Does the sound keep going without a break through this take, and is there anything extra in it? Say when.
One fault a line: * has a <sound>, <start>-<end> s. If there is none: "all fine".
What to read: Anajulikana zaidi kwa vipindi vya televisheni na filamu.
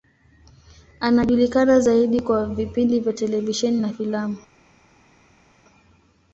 all fine